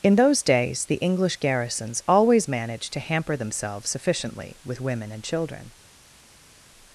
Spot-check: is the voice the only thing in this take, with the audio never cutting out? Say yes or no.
yes